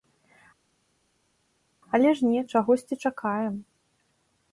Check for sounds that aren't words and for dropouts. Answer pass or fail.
pass